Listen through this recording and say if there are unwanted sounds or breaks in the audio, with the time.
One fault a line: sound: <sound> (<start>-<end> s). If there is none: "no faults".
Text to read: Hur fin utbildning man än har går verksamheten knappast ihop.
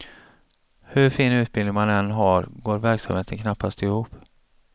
no faults